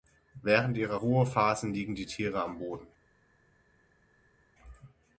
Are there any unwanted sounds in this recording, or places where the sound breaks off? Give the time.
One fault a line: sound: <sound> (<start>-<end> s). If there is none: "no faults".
no faults